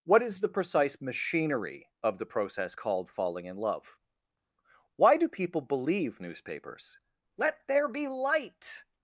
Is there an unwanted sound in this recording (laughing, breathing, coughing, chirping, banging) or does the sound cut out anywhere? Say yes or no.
no